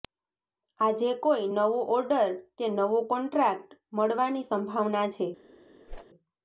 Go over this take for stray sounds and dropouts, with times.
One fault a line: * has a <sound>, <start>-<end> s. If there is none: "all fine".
* has a whoosh, 5.9-6.1 s